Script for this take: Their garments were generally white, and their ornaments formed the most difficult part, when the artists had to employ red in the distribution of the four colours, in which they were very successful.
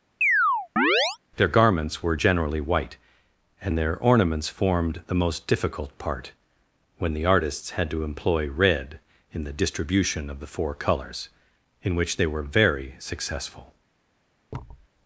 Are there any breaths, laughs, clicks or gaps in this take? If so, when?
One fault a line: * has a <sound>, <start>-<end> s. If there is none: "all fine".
* has a chirp, 0.2-1.2 s
* has a thud, 14.5-14.9 s